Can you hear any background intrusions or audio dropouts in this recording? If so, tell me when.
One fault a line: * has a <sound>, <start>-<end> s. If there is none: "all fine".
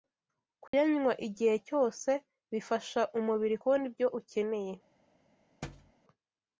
* has a dropout, 0.7-0.7 s
* has a thud, 5.6-5.9 s